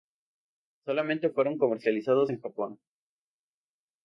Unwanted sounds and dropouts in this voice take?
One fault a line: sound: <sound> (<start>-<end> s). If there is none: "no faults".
no faults